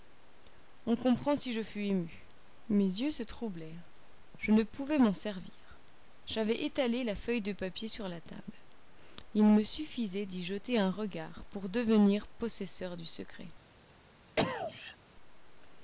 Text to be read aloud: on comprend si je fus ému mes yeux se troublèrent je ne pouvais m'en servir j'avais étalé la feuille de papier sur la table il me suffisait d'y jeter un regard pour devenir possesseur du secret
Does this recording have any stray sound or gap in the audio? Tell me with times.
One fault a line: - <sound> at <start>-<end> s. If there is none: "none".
- cough at 14.4-15.0 s